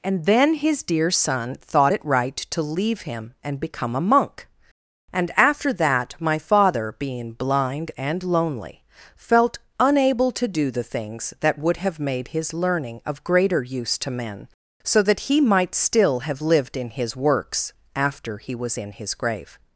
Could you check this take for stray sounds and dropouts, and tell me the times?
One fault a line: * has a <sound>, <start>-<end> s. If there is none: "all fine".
all fine